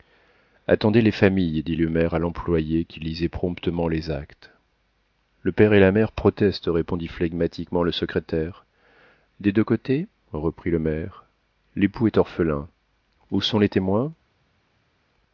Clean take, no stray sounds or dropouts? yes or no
yes